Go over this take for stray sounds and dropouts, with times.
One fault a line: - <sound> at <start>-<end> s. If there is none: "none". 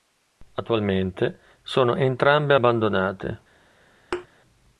- thud at 4.1-4.3 s